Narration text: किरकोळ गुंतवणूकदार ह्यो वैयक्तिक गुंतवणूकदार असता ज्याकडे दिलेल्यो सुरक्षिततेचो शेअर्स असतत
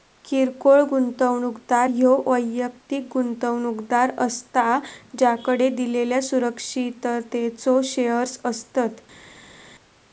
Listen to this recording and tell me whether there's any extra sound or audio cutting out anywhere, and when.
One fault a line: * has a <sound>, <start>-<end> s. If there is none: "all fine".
all fine